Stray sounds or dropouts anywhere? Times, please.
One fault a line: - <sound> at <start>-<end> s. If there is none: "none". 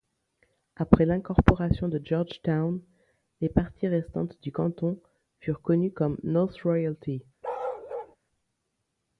- bark at 7.4-8.2 s